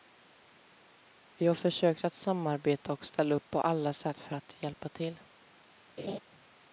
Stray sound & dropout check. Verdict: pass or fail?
fail